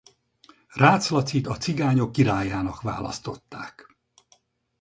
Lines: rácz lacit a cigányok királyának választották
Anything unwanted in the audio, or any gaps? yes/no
no